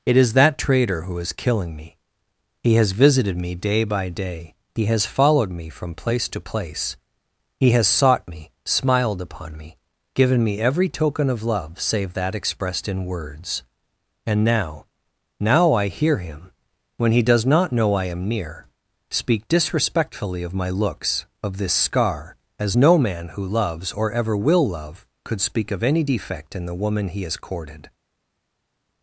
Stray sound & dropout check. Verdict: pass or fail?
pass